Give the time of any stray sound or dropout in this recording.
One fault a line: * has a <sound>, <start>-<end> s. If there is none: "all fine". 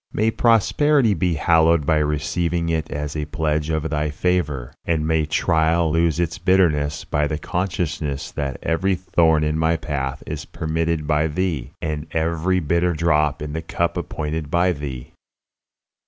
all fine